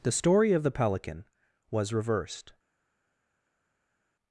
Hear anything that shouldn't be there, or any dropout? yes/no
no